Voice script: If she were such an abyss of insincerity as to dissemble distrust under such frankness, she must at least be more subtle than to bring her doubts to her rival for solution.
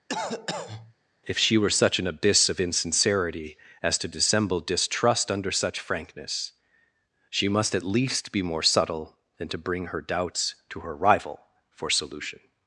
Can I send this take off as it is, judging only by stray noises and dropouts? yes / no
no